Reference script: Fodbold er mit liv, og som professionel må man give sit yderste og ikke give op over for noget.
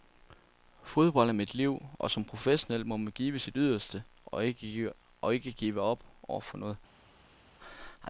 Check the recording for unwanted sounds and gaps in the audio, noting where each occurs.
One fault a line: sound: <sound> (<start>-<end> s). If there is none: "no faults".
no faults